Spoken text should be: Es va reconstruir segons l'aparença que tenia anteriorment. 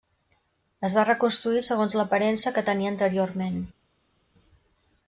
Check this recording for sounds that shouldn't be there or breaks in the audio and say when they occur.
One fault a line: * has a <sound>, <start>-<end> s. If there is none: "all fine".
all fine